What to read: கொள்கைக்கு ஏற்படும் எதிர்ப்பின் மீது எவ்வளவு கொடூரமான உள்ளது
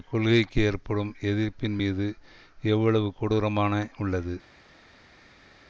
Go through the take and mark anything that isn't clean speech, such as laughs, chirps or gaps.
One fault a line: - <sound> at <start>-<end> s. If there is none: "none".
none